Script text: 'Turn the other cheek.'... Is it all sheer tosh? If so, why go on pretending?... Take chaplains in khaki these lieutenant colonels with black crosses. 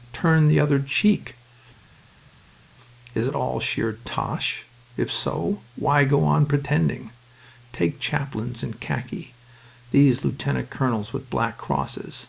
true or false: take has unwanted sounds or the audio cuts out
false